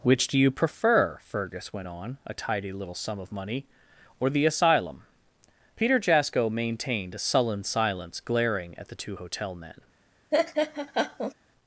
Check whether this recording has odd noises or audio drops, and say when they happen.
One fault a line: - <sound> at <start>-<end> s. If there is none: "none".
- laugh at 10.3-11.3 s